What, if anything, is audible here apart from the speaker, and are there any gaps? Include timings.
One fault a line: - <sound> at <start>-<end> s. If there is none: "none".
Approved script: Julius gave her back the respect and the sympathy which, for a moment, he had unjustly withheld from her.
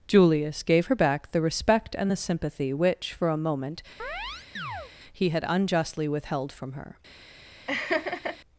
- chirp at 4.0-4.9 s
- laugh at 7.7-8.4 s